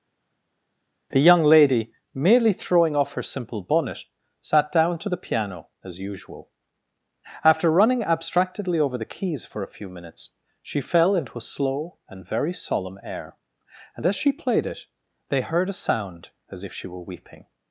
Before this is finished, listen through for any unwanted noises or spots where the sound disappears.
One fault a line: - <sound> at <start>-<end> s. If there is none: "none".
none